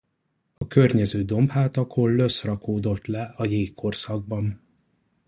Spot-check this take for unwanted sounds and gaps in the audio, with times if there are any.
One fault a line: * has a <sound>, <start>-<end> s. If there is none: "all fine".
* has a dropout, 0.6-0.6 s